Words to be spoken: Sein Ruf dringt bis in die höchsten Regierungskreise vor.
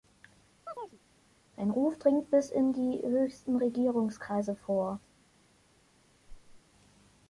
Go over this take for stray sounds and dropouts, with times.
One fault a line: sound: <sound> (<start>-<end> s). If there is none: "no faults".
sound: chirp (0.7-1.0 s)
sound: whoosh (6.3-6.6 s)